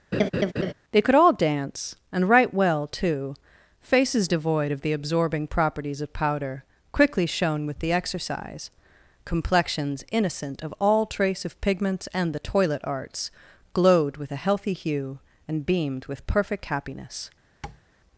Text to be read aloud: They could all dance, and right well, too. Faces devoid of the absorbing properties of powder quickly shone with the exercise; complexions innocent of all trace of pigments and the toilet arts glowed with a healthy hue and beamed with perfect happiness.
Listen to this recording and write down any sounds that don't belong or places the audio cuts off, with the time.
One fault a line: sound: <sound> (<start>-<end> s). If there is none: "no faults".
sound: laugh (0.1-0.7 s)
sound: tap (17.6-17.8 s)